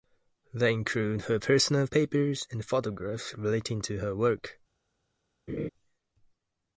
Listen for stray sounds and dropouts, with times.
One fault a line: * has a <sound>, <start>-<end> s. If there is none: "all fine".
* has a laugh, 5.5-5.7 s